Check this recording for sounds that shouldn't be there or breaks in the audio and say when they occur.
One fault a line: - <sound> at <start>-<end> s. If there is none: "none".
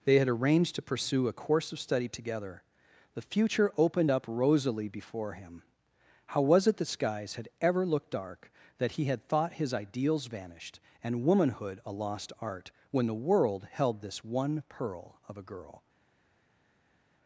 none